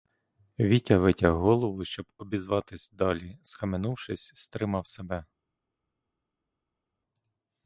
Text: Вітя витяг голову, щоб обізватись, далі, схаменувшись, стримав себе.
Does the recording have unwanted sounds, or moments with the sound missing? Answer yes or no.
no